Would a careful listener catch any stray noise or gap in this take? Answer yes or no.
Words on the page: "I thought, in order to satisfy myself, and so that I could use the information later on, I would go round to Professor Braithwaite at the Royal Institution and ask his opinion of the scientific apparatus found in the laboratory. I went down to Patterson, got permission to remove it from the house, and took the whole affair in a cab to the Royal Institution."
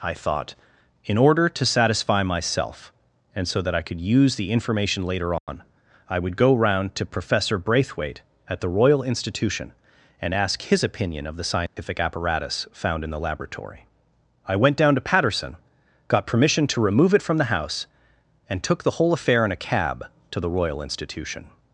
yes